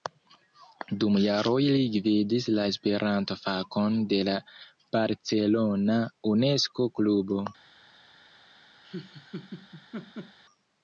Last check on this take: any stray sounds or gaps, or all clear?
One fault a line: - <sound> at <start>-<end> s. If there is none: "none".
- laugh at 8.8-10.4 s